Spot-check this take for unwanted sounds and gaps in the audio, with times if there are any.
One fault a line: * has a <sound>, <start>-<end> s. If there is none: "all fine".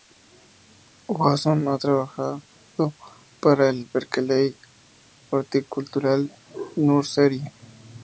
all fine